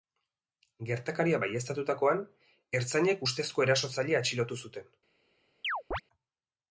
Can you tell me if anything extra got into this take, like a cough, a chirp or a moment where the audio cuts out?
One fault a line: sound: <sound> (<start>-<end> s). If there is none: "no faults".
sound: chirp (5.6-6.0 s)